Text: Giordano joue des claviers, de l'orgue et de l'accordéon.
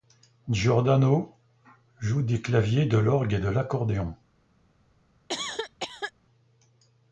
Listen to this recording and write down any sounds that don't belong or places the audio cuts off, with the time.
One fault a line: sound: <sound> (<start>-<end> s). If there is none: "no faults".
sound: cough (5.3-6.1 s)